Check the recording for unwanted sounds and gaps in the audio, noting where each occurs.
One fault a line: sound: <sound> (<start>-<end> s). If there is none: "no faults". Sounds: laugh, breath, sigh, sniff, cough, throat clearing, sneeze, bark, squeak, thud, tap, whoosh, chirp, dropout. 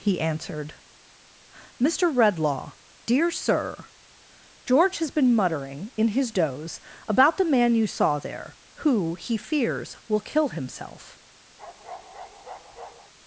sound: bark (11.6-13.1 s)